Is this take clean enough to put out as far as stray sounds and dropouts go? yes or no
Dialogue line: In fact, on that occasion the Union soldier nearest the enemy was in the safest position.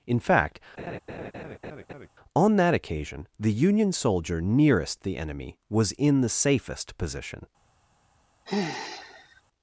no